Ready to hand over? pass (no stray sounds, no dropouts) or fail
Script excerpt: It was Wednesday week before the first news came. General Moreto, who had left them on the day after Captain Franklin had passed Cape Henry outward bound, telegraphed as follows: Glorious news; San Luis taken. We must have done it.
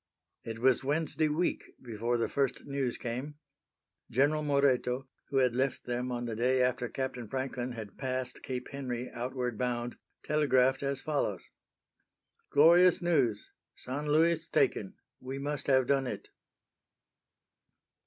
pass